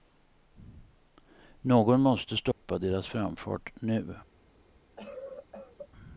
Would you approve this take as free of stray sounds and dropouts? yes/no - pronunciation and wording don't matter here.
no